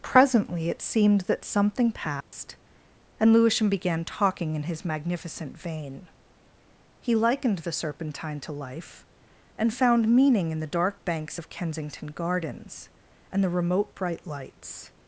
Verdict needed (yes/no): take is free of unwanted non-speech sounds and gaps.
no